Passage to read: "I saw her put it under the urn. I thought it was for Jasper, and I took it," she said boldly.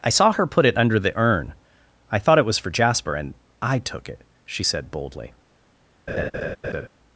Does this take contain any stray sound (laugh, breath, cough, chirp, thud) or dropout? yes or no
yes